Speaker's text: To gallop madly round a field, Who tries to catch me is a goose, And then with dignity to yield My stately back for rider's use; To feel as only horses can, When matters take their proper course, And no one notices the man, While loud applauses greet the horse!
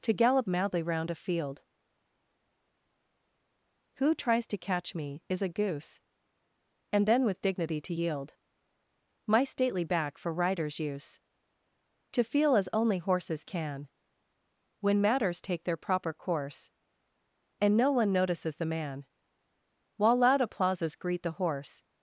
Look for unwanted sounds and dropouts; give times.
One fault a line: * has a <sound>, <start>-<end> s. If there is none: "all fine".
all fine